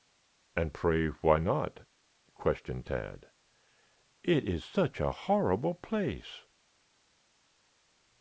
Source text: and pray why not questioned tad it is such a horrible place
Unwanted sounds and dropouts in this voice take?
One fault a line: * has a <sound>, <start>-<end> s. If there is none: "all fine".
all fine